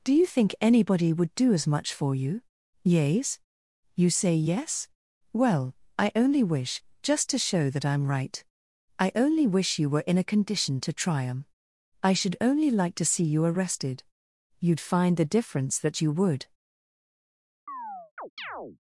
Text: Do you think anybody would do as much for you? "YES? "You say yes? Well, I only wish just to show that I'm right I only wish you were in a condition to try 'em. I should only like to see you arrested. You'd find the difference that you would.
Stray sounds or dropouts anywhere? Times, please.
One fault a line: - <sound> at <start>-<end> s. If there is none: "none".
- chirp at 17.7-18.8 s